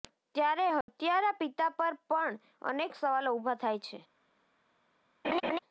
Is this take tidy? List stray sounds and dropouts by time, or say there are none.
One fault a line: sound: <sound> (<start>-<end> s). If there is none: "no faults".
sound: dropout (0.8-0.9 s)
sound: laugh (5.2-5.6 s)